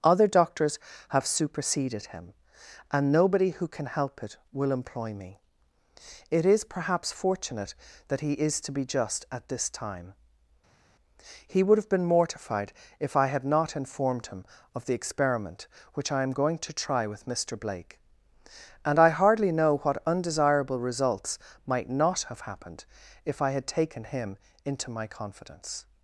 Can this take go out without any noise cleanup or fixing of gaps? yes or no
yes